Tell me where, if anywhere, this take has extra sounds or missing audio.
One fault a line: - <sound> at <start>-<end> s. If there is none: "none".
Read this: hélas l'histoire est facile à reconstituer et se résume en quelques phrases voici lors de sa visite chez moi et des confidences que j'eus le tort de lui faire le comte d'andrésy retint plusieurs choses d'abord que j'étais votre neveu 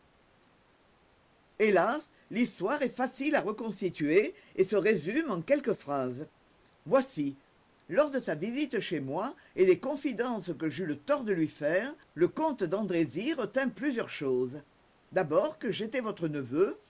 none